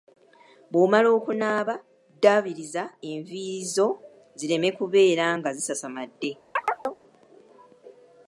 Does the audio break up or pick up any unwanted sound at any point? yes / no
yes